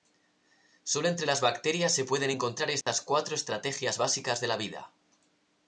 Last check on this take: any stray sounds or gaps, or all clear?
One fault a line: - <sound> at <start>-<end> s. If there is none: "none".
- dropout at 2.8-2.9 s